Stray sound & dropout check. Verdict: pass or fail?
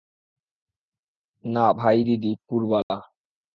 fail